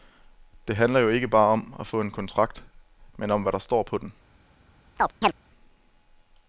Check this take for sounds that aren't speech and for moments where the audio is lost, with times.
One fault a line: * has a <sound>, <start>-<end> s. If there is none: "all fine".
* has a chirp, 5.0-5.3 s